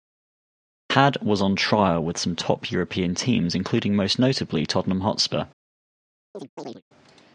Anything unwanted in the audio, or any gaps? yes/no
yes